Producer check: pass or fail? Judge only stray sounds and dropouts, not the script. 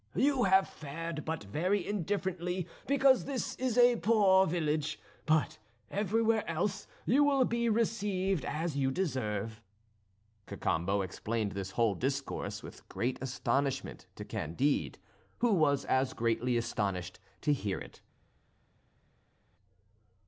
pass